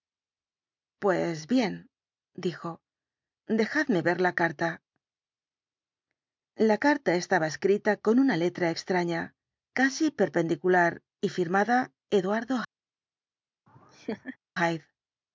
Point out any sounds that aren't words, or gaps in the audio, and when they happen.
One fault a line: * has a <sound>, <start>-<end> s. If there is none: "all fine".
* has a laugh, 13.7-14.4 s